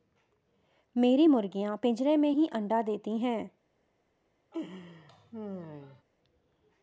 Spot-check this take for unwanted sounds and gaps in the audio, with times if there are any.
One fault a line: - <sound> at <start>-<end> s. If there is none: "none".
- laugh at 4.5-6.0 s